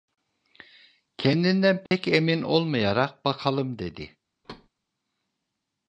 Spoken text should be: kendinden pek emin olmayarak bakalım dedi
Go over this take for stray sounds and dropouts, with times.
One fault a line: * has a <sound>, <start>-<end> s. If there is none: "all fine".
* has a dropout, 1.9-1.9 s
* has a thud, 4.4-4.7 s